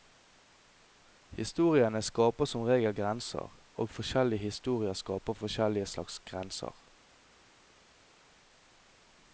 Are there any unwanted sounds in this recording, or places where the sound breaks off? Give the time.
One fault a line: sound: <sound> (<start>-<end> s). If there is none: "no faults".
no faults